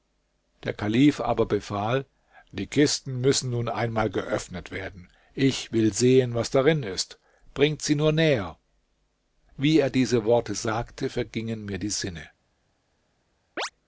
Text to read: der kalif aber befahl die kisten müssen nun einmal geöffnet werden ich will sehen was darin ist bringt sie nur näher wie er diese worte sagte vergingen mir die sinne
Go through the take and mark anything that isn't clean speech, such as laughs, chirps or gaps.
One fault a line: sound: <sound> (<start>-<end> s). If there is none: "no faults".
sound: chirp (13.6-13.7 s)